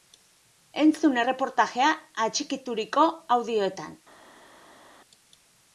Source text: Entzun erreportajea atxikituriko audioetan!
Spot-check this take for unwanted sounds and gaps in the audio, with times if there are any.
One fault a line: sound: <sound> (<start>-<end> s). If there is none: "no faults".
no faults